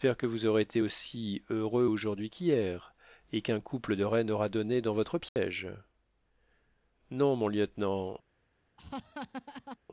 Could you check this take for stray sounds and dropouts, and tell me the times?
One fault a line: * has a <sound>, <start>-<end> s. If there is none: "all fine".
* has a dropout, 5.3-5.4 s
* has a laugh, 8.8-9.8 s